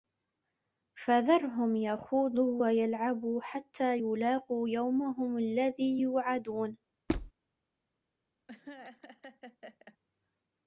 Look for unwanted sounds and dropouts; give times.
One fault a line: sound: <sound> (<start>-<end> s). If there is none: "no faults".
sound: squeak (7.1-7.3 s)
sound: laugh (8.5-10.0 s)